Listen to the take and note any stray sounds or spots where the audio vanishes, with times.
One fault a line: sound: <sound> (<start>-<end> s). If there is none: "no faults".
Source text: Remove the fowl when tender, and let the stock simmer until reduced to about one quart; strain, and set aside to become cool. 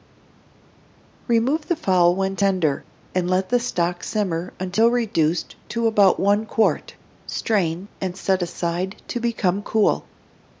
no faults